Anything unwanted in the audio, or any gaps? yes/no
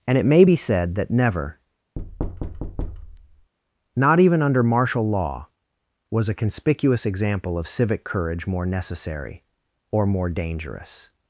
yes